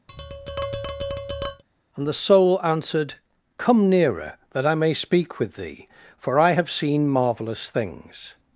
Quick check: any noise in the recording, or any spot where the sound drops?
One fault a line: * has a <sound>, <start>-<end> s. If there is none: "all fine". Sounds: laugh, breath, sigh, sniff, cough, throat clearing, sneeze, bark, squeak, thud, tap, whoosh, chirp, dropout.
* has a tap, 0.1-1.6 s